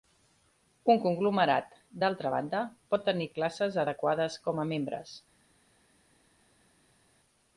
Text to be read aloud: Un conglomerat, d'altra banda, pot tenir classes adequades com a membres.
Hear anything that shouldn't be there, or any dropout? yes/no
no